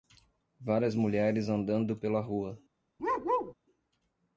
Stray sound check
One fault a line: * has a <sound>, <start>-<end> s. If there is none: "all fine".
* has a bark, 3.0-3.5 s